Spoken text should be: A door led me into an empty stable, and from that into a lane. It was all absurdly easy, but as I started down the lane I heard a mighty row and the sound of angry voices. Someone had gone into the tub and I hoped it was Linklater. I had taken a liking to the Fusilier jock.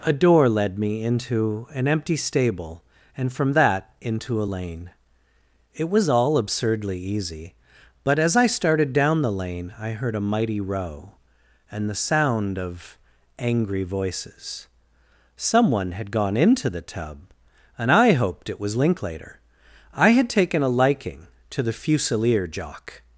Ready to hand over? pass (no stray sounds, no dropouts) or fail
pass